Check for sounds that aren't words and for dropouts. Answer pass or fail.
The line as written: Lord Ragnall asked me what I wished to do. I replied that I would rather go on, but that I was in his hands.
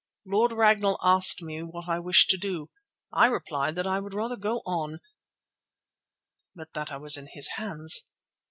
pass